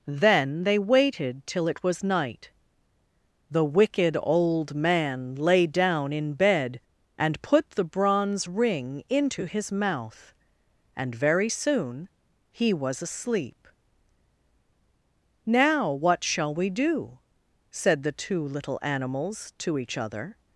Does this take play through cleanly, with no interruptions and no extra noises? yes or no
yes